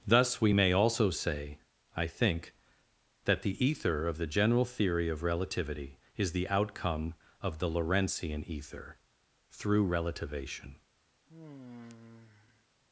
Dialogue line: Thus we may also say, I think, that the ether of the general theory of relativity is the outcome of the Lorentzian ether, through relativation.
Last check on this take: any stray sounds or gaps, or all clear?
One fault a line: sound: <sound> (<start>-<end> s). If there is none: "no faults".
sound: sigh (11.3-12.7 s)